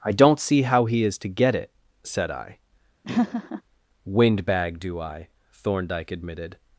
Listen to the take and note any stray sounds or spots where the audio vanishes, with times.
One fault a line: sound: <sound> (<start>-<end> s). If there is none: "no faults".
sound: laugh (3.0-3.6 s)